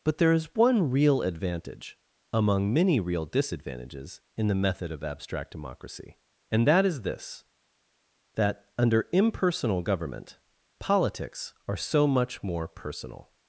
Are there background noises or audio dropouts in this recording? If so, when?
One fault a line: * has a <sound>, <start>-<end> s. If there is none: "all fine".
all fine